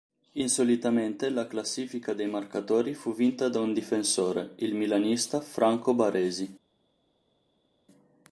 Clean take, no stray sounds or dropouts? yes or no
yes